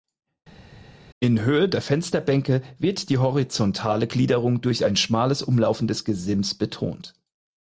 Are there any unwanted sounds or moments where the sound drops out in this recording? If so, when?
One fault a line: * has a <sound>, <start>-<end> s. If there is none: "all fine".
all fine